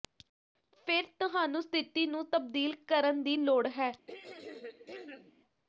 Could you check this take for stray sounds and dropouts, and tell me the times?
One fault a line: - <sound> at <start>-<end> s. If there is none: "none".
- throat clearing at 4.1-5.3 s